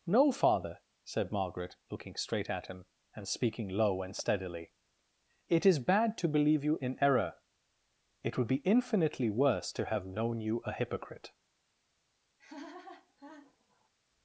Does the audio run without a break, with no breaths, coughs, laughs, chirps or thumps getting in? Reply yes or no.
no